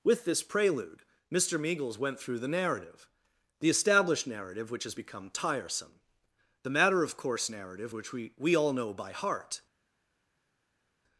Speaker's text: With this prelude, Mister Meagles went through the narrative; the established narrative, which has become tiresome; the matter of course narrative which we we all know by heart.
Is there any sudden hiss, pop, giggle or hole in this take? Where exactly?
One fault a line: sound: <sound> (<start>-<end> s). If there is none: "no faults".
no faults